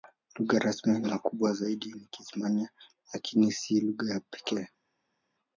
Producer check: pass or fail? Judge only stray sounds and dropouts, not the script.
pass